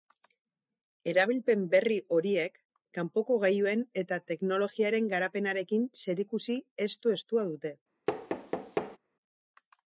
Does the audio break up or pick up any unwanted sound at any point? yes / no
yes